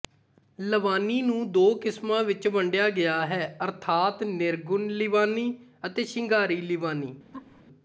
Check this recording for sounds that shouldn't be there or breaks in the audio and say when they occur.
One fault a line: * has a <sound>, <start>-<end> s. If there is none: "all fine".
* has a laugh, 7.3-7.6 s